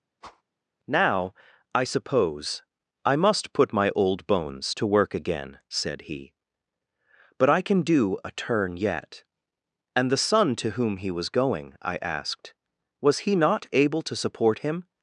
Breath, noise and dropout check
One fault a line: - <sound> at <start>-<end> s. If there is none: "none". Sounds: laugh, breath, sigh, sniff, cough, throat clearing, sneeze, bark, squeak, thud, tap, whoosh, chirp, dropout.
- whoosh at 0.2-0.4 s